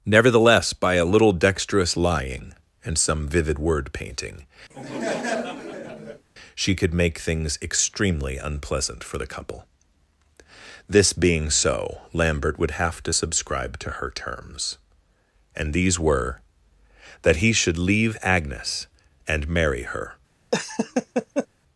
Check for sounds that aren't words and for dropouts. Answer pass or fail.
fail